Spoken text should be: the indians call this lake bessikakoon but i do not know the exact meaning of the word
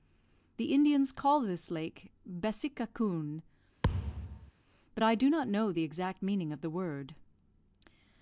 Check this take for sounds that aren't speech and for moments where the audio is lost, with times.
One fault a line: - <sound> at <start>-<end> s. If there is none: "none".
- thud at 3.8-4.5 s